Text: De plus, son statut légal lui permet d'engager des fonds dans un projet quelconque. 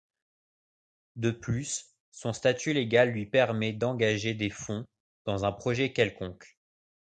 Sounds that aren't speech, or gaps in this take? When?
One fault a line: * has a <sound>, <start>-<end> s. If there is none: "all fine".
all fine